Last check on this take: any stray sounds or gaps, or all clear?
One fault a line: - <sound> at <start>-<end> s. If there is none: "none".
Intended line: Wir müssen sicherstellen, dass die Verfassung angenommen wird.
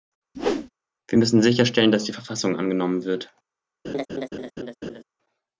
- whoosh at 0.3-0.7 s
- laugh at 3.8-5.0 s